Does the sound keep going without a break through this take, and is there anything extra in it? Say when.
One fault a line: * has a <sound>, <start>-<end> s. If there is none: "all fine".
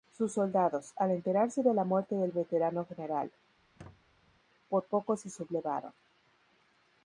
* has a squeak, 3.6-4.4 s